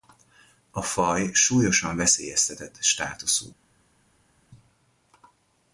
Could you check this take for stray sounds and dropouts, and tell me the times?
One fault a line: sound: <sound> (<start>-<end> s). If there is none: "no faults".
no faults